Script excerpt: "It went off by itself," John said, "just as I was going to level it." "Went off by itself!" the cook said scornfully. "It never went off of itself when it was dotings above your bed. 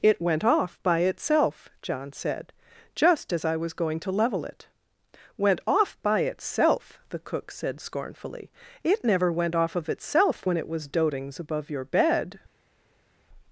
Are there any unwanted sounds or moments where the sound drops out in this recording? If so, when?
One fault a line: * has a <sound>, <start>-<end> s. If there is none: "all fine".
all fine